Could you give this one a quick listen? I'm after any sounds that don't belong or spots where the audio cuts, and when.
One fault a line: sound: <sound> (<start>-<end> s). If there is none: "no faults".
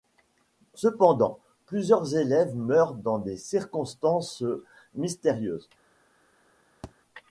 sound: thud (6.8-6.9 s)